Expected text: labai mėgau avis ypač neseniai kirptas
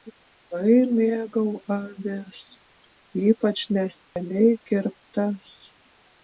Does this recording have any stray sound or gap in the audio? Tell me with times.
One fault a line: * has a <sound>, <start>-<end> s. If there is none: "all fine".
* has a dropout, 4.0-4.2 s